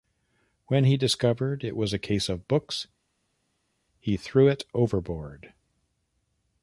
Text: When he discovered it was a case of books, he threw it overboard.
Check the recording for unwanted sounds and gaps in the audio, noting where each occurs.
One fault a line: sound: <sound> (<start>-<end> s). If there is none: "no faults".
no faults